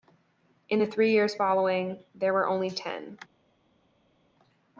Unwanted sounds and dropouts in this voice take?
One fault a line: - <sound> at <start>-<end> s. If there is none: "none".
none